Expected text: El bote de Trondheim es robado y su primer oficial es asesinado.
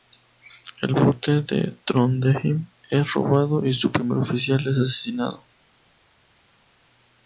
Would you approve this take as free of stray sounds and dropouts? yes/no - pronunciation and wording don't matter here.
yes